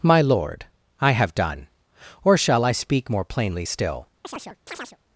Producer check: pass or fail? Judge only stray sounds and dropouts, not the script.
fail